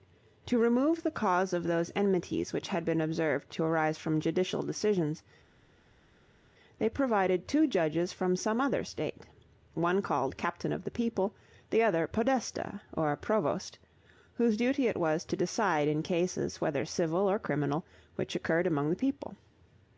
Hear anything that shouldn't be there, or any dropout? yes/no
no